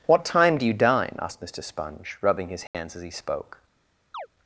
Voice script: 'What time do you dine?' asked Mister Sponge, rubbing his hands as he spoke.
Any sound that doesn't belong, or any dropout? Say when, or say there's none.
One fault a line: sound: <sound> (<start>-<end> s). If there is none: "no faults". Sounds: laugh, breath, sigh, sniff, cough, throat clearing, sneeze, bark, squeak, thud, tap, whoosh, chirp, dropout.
sound: dropout (2.7-2.7 s)
sound: chirp (4.1-4.3 s)